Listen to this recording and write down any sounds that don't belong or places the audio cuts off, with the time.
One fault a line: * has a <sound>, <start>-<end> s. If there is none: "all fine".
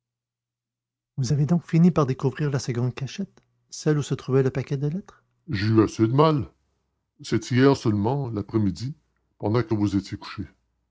all fine